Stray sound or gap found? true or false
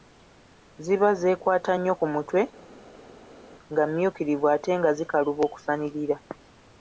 false